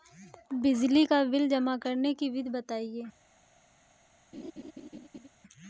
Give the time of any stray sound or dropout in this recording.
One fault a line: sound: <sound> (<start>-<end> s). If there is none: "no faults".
sound: laugh (4.3-5.3 s)